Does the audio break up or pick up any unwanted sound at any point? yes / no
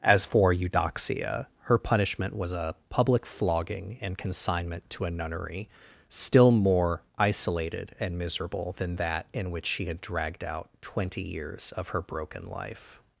no